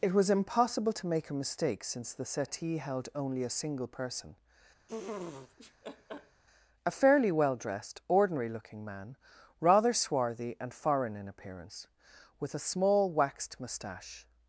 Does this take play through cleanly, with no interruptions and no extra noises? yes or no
no